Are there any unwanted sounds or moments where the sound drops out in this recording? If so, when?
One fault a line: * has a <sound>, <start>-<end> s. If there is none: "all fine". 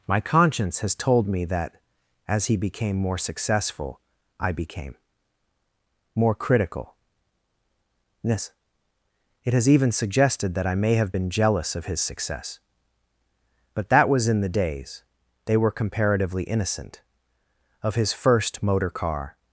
all fine